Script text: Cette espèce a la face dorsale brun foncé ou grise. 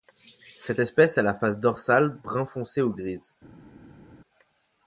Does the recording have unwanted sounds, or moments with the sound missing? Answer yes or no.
no